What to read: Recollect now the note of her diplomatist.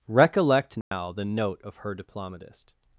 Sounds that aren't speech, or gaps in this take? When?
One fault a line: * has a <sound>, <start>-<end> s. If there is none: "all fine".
* has a dropout, 0.8-0.9 s